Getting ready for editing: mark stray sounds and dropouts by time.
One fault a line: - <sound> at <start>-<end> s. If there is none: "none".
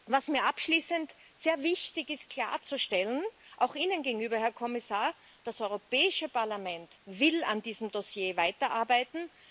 none